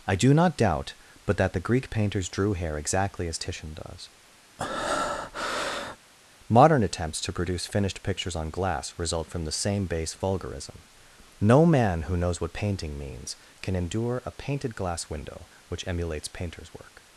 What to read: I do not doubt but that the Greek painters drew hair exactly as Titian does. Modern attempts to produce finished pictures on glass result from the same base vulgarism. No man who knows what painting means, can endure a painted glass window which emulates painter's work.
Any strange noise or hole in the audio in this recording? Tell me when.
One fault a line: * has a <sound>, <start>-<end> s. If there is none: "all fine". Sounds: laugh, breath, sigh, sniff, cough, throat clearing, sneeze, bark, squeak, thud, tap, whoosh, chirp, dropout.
* has a breath, 4.6-6.0 s